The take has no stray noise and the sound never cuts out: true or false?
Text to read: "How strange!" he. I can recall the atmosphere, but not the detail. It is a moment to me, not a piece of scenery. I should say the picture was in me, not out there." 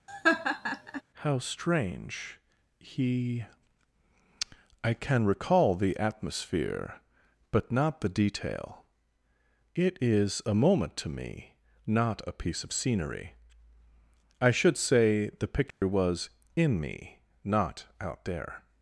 false